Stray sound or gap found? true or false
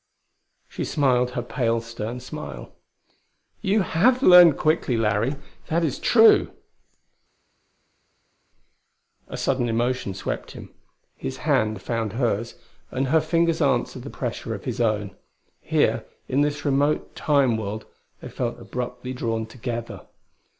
false